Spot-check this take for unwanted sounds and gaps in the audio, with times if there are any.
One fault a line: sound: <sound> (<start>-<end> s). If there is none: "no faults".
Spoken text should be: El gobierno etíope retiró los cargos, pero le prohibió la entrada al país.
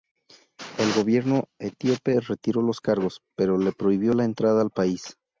no faults